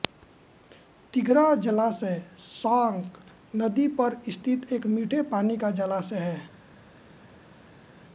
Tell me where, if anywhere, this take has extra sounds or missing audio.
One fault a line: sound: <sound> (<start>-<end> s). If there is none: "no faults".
no faults